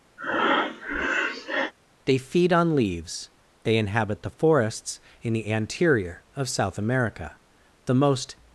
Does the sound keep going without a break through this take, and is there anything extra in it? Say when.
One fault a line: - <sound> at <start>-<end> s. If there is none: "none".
- breath at 0.2-1.7 s